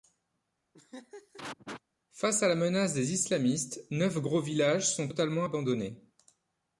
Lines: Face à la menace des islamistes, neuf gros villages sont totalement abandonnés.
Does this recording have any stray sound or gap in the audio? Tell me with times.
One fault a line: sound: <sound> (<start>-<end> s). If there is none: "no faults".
sound: laugh (0.7-1.8 s)